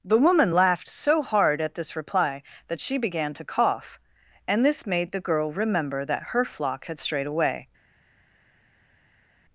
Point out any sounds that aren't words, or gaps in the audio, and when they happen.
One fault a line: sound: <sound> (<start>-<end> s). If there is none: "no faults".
no faults